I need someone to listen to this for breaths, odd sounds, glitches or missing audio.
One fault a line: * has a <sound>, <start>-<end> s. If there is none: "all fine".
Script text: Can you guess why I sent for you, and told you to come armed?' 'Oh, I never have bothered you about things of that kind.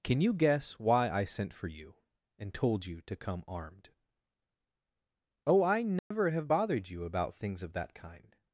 * has a dropout, 6.0-6.1 s